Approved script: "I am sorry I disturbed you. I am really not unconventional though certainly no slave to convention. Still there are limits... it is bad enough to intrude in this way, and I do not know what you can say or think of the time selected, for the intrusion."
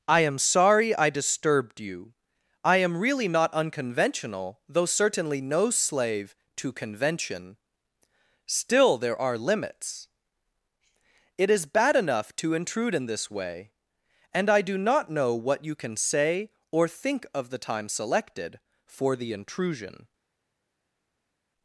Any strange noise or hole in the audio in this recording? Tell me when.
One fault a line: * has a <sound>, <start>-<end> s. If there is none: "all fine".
all fine